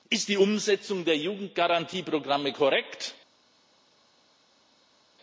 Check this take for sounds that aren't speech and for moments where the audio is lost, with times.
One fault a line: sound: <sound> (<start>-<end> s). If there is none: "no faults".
no faults